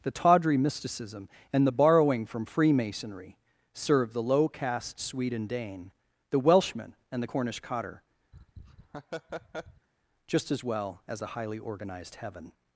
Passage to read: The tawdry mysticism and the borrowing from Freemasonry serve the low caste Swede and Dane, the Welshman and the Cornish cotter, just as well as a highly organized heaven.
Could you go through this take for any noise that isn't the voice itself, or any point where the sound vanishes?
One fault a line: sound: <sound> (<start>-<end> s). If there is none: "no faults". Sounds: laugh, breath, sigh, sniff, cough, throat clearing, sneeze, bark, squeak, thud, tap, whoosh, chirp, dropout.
sound: laugh (8.3-9.9 s)